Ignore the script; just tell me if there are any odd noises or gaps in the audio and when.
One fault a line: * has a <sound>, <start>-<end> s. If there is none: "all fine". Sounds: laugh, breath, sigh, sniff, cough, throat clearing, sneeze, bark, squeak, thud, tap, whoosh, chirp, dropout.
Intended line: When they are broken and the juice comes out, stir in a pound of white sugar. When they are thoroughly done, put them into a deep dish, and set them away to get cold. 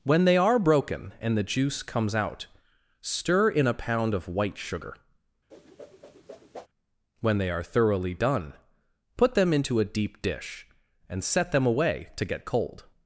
* has a whoosh, 5.5-6.7 s